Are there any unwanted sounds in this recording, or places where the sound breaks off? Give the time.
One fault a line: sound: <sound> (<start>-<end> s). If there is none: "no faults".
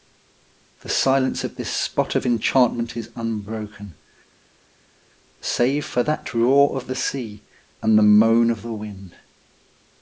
no faults